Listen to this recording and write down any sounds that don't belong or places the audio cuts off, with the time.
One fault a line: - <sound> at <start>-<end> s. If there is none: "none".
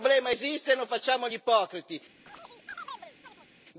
- chirp at 2.3-3.5 s